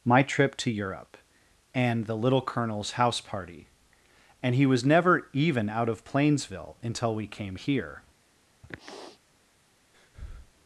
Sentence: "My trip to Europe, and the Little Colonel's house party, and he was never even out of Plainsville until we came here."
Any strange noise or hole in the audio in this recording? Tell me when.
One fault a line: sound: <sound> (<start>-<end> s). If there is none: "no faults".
sound: sniff (8.6-9.2 s)
sound: breath (9.9-10.5 s)